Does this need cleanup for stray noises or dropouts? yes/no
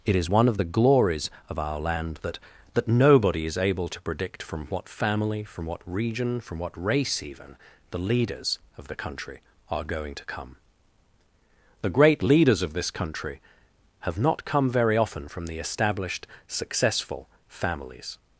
no